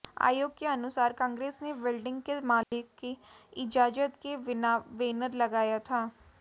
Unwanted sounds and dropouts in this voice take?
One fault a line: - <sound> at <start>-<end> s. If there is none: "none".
- dropout at 2.6-2.7 s